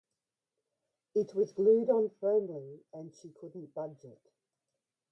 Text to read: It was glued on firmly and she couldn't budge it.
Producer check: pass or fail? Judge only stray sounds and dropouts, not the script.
pass